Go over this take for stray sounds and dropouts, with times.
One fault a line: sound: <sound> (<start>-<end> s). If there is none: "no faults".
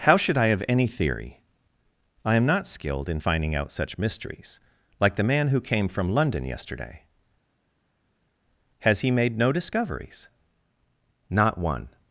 no faults